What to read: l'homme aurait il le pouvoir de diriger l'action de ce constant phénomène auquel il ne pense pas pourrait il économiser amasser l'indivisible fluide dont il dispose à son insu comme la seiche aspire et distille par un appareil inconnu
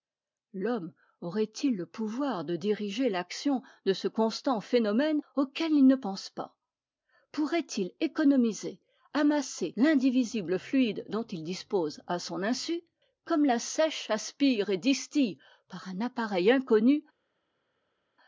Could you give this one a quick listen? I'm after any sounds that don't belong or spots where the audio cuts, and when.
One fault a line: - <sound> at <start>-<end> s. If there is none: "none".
none